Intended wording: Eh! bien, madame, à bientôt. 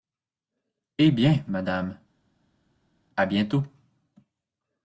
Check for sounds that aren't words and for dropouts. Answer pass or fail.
pass